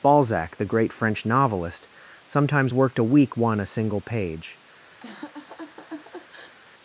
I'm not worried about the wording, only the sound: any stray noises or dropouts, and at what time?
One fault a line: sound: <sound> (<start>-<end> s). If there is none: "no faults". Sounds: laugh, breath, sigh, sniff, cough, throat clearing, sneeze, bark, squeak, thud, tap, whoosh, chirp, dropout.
sound: laugh (5.0-6.6 s)